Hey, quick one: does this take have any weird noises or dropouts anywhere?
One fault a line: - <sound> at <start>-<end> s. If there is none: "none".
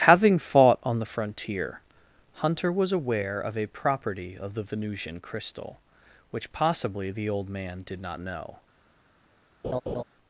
- laugh at 9.6-10.0 s